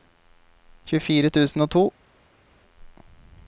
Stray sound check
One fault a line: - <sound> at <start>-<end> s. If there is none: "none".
none